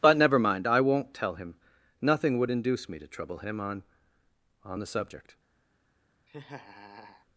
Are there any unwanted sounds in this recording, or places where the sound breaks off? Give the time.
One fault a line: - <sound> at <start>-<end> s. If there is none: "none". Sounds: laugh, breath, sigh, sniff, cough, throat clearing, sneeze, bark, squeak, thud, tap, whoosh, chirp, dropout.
- laugh at 6.3-7.3 s